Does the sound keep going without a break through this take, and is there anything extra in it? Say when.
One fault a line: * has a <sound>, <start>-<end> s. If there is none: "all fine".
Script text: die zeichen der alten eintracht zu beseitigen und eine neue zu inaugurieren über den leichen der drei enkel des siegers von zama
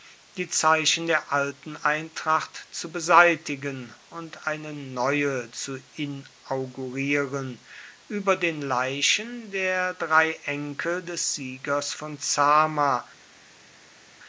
all fine